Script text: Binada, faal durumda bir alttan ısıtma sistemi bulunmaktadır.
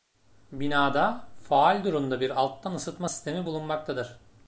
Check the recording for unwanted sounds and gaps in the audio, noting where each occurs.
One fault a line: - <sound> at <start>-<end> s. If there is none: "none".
none